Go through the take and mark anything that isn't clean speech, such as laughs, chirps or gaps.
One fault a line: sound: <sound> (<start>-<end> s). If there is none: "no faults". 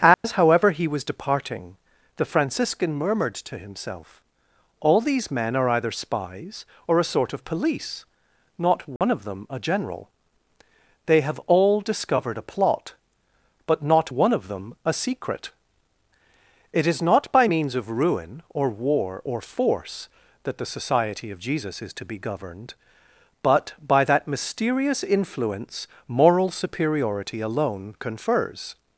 sound: dropout (0.1-0.2 s)
sound: dropout (9.0-9.0 s)